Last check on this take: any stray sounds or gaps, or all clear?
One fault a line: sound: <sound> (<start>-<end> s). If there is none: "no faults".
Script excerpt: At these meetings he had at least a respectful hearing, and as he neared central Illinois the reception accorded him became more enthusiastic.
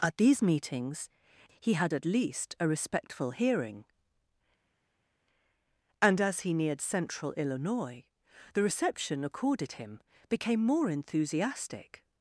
no faults